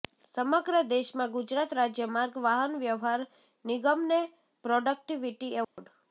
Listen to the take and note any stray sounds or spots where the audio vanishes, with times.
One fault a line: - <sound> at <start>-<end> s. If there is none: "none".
- dropout at 5.6-5.8 s